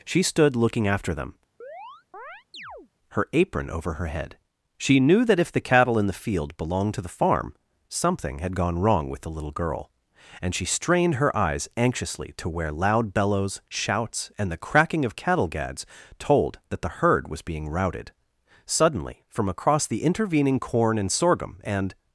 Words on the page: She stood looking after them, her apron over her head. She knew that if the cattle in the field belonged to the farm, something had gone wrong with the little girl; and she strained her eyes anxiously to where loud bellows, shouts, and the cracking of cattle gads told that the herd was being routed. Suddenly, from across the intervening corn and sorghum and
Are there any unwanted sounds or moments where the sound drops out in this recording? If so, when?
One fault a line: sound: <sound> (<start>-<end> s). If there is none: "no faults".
sound: chirp (1.6-2.9 s)